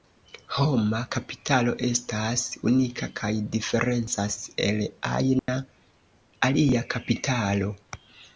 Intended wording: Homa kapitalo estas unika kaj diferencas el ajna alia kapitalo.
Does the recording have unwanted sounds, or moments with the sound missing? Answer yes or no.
yes